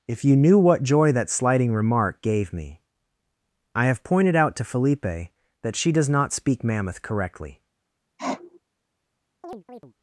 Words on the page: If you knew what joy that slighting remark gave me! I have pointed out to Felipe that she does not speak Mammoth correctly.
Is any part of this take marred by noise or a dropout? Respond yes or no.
yes